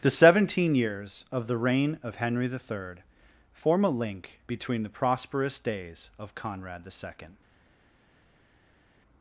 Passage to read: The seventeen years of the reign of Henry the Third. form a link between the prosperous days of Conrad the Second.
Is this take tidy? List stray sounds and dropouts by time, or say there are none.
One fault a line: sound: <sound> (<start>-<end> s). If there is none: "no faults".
no faults